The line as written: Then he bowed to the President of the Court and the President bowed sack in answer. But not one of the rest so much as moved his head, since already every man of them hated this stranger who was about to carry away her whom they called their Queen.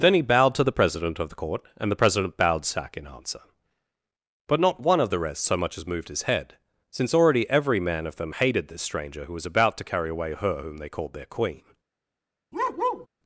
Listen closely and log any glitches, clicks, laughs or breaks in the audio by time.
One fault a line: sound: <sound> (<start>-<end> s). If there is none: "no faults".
sound: bark (12.5-13.1 s)